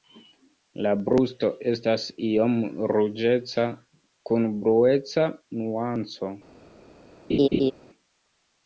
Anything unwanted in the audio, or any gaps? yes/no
yes